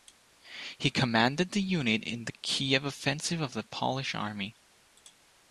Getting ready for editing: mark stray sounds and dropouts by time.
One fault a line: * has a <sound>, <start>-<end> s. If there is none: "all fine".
all fine